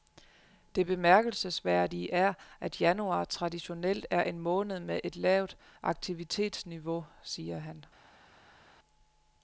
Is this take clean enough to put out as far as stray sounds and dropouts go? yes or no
yes